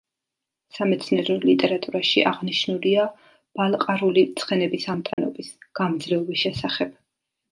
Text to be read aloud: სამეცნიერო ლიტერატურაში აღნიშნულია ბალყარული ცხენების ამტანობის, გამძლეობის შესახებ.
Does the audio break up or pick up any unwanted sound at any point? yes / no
yes